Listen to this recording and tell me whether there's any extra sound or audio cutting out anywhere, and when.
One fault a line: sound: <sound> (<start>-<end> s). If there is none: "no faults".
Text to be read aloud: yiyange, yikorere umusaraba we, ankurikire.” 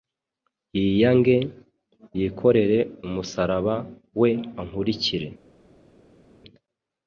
no faults